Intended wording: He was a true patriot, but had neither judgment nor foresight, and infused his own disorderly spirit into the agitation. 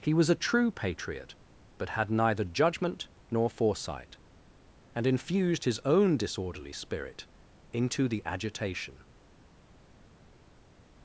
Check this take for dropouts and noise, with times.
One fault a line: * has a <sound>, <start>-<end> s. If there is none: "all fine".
all fine